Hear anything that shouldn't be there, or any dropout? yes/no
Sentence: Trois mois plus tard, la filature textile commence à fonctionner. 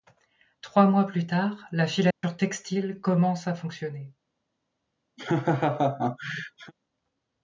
yes